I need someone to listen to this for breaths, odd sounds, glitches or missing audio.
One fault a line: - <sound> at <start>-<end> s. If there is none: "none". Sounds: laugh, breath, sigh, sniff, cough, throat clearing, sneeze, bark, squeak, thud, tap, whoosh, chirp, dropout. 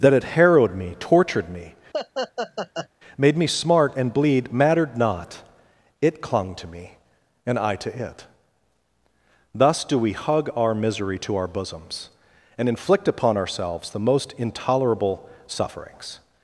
- laugh at 1.9-2.9 s